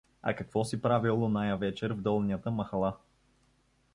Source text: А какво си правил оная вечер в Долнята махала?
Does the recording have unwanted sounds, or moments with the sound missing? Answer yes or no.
no